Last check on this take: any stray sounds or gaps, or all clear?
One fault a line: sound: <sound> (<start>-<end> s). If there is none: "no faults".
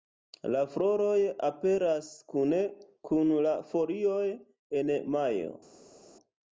no faults